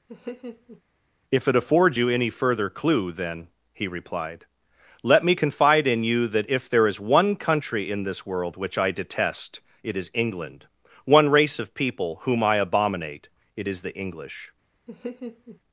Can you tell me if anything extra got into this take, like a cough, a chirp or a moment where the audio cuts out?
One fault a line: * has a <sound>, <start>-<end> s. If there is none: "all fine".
* has a laugh, 0.1-0.8 s
* has a laugh, 14.9-15.6 s